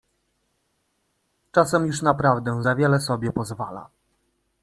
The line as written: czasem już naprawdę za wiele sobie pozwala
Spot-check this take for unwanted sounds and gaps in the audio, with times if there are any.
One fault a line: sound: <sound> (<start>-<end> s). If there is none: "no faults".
no faults